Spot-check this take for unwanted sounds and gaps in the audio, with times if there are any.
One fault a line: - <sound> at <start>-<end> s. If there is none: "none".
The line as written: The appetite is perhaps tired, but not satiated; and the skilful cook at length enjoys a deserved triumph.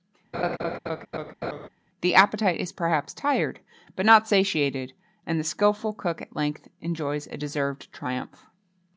- laugh at 0.3-1.7 s